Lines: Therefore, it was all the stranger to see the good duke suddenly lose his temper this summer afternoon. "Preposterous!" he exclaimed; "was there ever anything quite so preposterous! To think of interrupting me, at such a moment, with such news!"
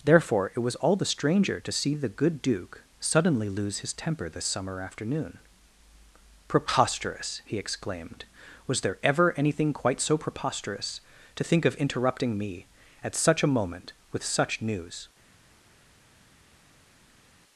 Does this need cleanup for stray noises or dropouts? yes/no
no